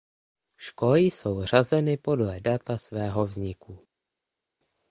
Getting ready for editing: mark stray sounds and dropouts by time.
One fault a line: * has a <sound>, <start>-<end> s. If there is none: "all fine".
all fine